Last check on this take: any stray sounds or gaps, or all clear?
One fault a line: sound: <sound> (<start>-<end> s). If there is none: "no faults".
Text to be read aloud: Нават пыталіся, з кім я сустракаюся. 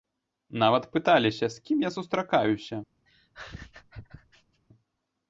sound: laugh (3.1-4.6 s)